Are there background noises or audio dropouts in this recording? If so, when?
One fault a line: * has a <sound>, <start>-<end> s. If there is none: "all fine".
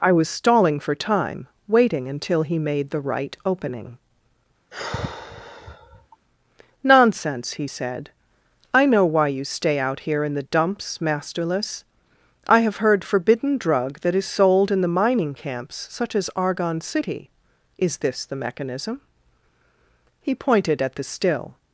* has a sigh, 4.7-6.2 s